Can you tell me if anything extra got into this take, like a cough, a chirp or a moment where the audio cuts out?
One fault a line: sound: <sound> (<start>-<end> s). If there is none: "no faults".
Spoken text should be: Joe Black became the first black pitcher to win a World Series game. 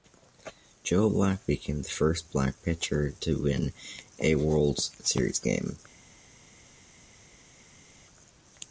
no faults